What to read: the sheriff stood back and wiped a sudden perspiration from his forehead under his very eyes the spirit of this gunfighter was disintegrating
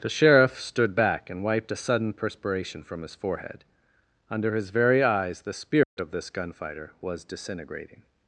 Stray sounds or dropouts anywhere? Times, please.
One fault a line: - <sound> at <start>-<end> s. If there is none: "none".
- dropout at 5.8-6.0 s